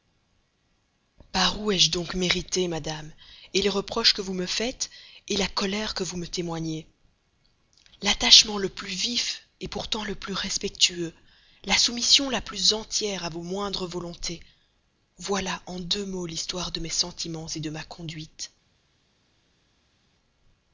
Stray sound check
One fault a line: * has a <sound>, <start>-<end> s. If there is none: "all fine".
all fine